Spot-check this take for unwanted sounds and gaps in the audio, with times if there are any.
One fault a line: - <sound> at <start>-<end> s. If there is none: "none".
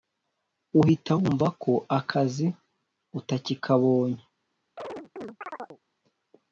- chirp at 4.8-5.8 s